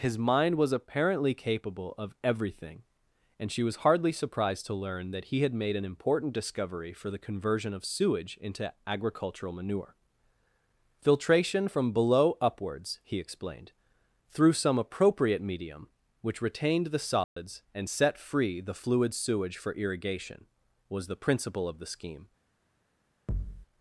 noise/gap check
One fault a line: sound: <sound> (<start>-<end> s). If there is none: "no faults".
sound: dropout (17.2-17.4 s)
sound: thud (23.3-23.7 s)